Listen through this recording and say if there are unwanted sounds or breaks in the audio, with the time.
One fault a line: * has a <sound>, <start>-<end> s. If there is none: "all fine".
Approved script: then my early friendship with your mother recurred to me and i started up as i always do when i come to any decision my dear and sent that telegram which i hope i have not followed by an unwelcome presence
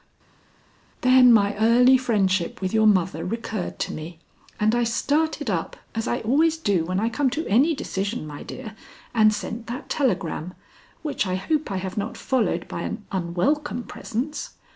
all fine